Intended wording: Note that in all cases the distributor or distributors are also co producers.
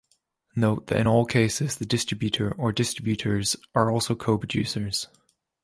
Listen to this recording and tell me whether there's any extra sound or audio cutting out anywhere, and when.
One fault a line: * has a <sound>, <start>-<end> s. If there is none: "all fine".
all fine